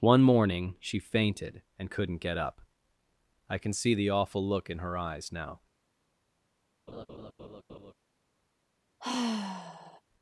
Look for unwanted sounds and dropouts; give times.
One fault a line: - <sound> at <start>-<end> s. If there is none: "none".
- laugh at 6.9-7.9 s
- sigh at 9.0-10.0 s